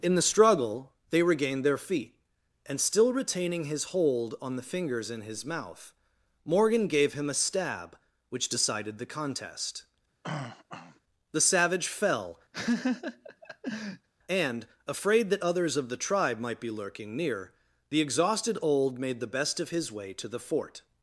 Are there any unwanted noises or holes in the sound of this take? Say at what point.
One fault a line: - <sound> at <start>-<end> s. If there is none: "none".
- throat clearing at 10.2-11.0 s
- laugh at 12.5-14.1 s